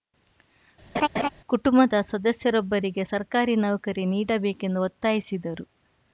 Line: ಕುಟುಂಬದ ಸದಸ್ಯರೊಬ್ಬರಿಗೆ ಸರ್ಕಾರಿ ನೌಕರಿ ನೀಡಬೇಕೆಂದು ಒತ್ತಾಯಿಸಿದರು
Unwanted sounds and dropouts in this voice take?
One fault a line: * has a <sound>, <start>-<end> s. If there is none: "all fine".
* has a laugh, 0.9-1.3 s